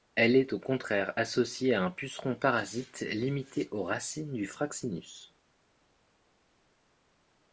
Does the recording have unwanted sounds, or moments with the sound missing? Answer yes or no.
no